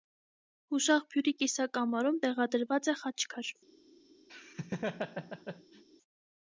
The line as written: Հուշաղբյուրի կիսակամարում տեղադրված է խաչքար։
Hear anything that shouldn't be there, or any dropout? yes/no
yes